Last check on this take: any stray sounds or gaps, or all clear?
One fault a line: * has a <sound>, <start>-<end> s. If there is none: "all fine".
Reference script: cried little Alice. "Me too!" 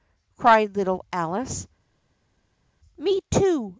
all fine